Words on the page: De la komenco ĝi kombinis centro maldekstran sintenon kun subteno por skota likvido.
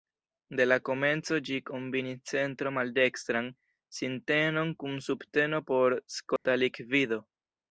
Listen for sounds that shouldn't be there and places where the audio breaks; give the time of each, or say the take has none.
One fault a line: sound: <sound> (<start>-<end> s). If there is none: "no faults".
sound: dropout (6.4-6.5 s)